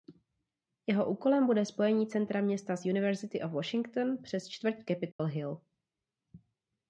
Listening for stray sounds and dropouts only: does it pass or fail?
fail